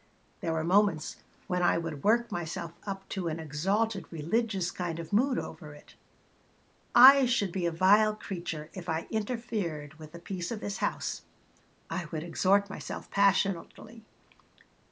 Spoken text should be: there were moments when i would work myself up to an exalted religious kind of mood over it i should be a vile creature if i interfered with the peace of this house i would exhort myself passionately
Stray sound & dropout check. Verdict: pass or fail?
pass